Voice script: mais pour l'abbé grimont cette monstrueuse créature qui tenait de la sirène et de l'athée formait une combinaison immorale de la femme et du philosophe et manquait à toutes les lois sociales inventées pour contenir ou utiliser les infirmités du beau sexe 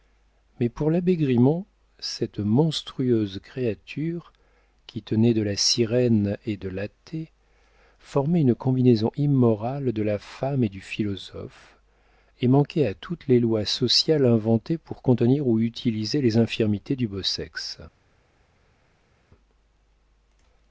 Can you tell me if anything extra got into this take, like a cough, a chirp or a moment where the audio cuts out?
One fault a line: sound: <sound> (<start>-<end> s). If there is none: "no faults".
no faults